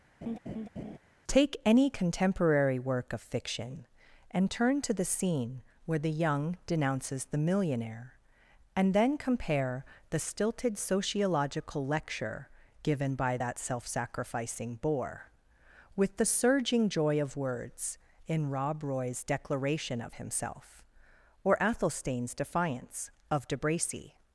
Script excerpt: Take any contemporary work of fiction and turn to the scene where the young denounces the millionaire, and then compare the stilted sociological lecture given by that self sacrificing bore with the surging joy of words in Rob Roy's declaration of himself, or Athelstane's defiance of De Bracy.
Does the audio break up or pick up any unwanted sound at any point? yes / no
yes